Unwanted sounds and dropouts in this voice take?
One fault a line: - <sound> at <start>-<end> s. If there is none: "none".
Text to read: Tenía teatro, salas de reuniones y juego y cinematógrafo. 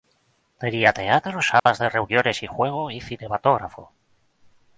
- dropout at 1.6-1.7 s